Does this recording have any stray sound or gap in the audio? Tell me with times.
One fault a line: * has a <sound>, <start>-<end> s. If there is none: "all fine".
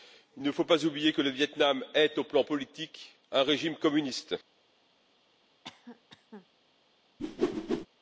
* has a cough, 5.6-6.5 s
* has a whoosh, 7.2-7.9 s